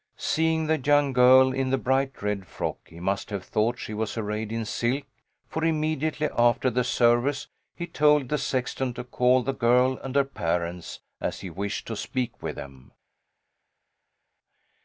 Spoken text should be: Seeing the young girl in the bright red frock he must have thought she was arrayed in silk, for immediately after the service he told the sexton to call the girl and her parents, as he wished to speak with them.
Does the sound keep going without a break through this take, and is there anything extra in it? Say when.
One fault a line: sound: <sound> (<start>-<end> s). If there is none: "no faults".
no faults